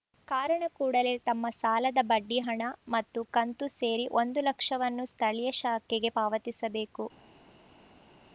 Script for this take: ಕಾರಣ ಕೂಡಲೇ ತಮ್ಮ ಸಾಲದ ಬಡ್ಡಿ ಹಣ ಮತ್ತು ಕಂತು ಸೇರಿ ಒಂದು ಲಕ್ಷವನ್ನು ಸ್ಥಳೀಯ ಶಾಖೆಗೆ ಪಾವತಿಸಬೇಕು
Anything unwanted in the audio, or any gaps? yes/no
no